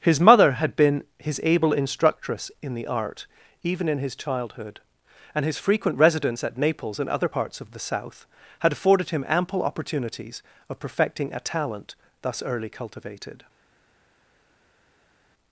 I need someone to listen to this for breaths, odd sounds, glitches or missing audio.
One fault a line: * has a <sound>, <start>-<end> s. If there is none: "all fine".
all fine